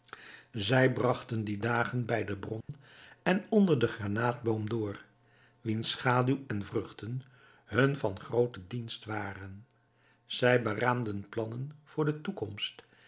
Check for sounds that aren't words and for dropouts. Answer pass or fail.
fail